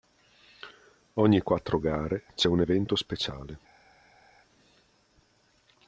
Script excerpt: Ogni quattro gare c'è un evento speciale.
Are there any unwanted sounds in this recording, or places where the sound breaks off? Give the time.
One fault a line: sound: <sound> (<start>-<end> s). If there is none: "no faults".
no faults